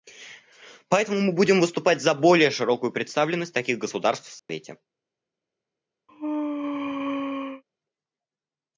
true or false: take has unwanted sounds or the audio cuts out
true